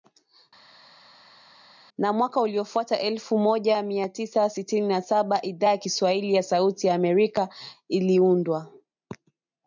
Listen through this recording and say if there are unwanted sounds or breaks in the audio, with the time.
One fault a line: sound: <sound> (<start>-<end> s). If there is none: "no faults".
no faults